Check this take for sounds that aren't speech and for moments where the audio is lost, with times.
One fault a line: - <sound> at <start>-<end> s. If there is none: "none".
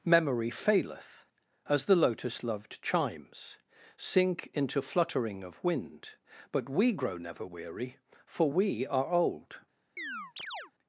- chirp at 10.0-10.7 s